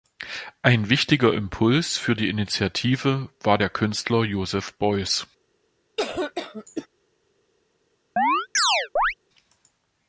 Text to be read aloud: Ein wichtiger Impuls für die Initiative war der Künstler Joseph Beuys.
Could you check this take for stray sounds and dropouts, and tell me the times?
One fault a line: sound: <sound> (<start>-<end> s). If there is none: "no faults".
sound: cough (6.0-6.9 s)
sound: chirp (8.2-9.1 s)